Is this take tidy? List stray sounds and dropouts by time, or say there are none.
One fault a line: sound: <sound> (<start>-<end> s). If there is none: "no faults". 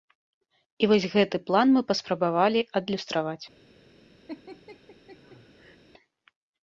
sound: laugh (4.3-5.8 s)